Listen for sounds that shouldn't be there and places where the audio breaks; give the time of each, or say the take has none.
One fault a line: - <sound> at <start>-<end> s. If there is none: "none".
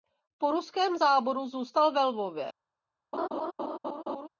- laugh at 3.1-4.3 s